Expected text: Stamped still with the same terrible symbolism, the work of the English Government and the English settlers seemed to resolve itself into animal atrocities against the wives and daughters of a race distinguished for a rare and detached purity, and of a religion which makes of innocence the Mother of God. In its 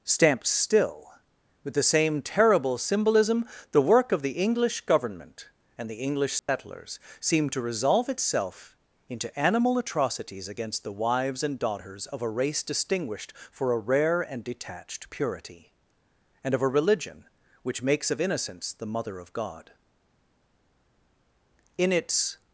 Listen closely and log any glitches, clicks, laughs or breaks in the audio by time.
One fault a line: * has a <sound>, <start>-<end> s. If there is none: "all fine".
* has a dropout, 6.4-6.5 s